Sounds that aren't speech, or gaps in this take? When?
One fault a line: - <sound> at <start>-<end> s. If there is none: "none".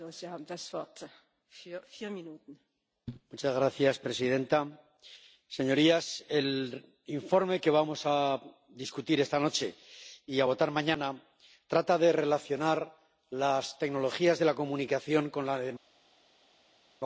none